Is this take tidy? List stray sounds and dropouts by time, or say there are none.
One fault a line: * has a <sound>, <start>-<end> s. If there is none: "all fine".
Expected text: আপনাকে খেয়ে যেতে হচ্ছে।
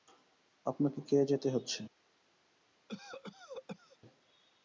* has a cough, 2.9-4.0 s